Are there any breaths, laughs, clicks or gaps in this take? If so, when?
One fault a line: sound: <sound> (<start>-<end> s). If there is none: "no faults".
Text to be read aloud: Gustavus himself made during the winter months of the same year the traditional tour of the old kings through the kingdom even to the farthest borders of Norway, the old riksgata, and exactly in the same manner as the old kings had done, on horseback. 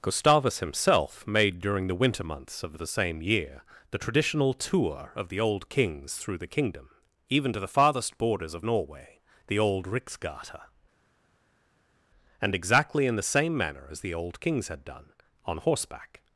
no faults